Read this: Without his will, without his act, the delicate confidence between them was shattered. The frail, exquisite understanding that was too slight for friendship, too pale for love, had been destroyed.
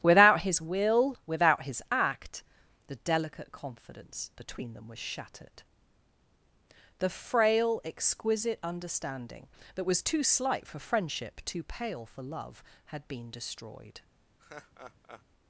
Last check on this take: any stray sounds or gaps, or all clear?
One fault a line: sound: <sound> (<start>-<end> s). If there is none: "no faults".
sound: laugh (14.4-15.3 s)